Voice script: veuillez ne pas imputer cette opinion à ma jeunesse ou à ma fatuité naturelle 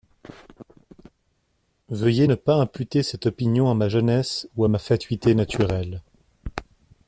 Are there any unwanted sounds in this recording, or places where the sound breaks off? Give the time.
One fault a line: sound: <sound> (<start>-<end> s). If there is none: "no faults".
no faults